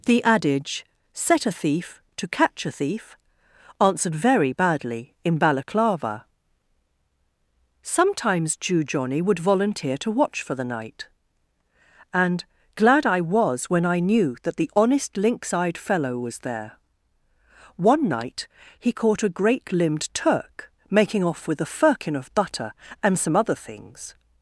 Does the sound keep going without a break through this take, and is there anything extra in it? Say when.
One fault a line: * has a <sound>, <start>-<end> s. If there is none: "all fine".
all fine